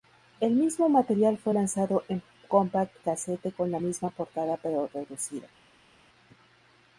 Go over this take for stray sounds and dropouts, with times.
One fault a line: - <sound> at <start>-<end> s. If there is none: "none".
none